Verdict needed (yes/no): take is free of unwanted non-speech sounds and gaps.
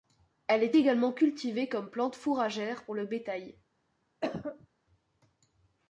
no